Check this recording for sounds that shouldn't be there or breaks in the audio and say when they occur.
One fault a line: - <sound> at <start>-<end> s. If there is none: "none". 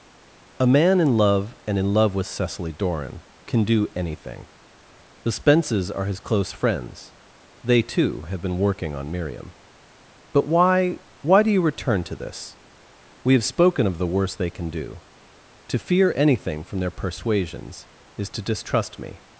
none